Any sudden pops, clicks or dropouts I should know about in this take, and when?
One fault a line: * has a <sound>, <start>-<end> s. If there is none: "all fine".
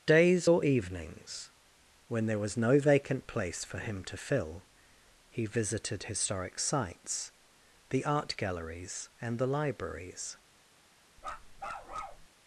* has a bark, 11.2-12.3 s